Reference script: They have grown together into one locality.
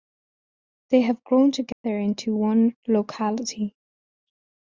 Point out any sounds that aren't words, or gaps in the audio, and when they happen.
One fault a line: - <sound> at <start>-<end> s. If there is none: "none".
- dropout at 1.7-1.8 s